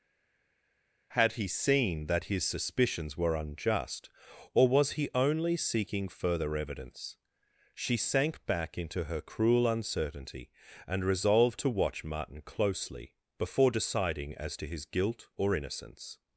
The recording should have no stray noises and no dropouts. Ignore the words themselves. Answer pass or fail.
pass